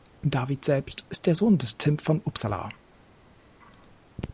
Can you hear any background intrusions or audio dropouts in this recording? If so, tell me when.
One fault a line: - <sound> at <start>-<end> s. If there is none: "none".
none